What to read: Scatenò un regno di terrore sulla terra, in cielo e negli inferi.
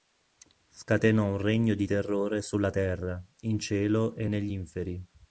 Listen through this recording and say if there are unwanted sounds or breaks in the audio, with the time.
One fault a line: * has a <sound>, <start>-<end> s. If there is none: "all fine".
all fine